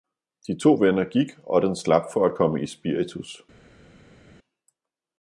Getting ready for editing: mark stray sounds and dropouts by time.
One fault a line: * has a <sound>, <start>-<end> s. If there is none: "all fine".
all fine